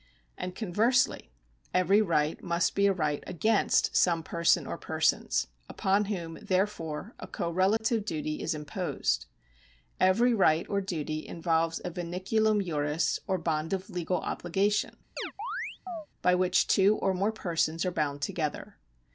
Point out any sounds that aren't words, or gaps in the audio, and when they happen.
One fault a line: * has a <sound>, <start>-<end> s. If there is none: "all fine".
* has a dropout, 7.8-7.8 s
* has a chirp, 15.2-16.1 s